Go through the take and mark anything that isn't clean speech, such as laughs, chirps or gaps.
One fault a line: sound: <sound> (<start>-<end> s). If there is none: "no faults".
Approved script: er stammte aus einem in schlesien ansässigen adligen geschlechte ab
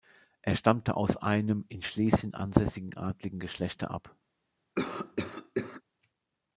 sound: cough (4.8-5.8 s)